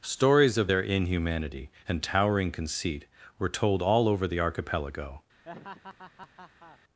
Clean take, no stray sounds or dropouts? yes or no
no